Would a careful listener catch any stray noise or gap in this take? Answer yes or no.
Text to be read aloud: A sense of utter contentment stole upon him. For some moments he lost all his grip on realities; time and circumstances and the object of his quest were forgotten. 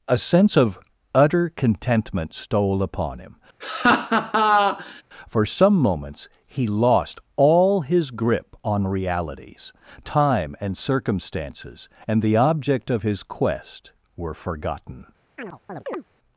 yes